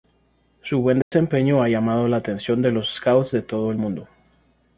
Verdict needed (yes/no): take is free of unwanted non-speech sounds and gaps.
no